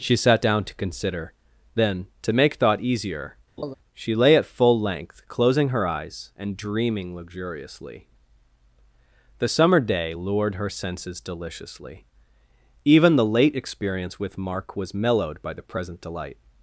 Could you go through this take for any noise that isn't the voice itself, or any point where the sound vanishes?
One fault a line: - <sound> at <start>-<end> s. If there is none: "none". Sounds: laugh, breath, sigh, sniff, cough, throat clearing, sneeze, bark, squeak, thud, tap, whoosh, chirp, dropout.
- laugh at 3.6-3.7 s